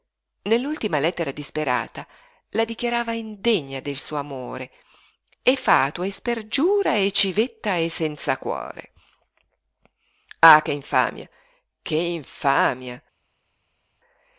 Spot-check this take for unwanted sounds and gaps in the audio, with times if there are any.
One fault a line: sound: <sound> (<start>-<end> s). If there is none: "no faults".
no faults